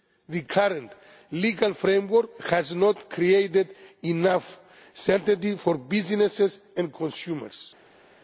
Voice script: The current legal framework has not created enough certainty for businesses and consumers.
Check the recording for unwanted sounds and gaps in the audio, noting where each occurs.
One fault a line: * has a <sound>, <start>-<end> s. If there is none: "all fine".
all fine